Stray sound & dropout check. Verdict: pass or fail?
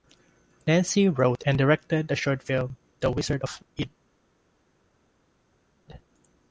pass